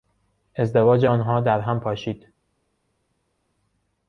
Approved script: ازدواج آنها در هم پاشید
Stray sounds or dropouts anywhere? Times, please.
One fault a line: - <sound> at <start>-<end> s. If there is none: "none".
none